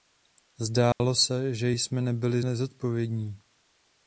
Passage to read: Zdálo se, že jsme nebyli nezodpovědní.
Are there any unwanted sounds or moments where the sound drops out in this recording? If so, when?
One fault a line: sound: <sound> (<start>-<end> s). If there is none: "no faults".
sound: dropout (0.9-1.0 s)